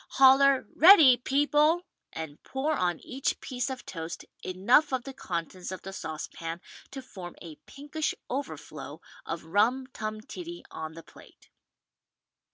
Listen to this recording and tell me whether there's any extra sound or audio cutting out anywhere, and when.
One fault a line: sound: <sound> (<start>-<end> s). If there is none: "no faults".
no faults